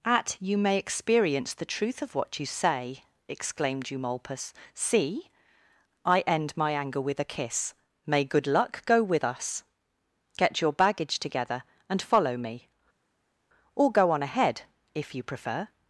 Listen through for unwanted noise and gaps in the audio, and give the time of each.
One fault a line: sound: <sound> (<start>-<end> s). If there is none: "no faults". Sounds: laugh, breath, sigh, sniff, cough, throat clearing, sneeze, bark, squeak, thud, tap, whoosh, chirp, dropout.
no faults